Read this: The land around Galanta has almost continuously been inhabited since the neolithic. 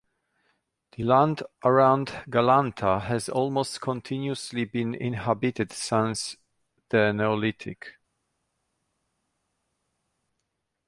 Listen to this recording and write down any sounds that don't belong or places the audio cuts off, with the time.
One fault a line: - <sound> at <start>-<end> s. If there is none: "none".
none